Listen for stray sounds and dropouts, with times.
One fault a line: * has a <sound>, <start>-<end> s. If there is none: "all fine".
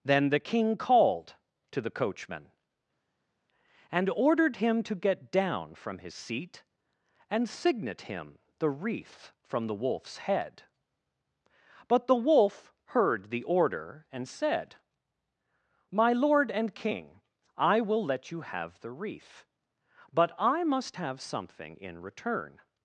all fine